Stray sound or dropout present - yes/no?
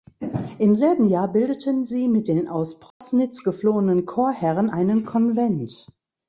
yes